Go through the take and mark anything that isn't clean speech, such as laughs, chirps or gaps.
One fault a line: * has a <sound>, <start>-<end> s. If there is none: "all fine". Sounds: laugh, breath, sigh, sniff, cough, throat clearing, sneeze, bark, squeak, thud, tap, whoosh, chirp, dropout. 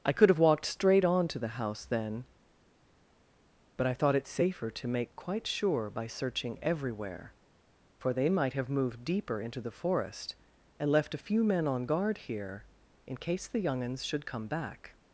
all fine